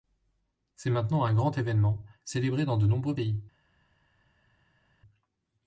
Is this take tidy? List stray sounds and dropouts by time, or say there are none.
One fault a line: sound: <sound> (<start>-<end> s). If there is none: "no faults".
no faults